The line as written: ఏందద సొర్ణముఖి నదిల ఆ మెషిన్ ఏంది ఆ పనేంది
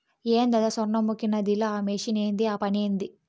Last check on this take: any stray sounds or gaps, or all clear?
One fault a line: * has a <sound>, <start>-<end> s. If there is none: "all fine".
all fine